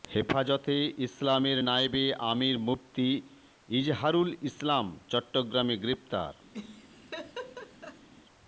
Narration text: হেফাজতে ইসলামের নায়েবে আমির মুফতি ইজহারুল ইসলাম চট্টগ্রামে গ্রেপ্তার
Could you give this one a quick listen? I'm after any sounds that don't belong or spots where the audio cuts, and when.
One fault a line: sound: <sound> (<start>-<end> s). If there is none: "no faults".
sound: laugh (6.5-8.1 s)